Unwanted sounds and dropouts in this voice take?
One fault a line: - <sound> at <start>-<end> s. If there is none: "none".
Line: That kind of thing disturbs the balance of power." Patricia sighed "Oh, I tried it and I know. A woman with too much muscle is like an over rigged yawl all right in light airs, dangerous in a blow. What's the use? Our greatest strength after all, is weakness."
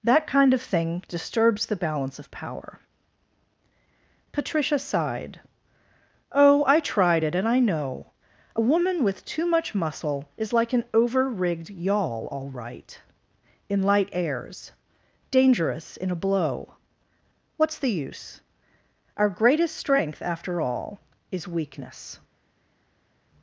none